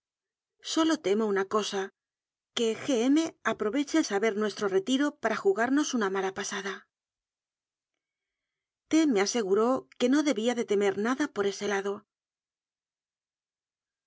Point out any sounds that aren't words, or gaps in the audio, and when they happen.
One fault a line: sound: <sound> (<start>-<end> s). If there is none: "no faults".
no faults